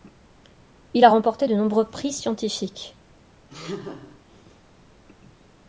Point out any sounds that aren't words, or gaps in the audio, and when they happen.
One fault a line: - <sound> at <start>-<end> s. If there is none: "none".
- laugh at 3.5-4.2 s